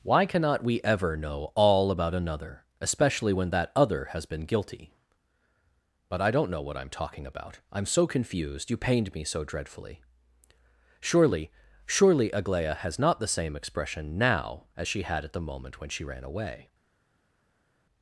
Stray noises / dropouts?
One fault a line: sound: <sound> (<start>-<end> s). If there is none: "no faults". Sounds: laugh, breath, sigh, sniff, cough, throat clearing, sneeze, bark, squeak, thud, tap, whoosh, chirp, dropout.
no faults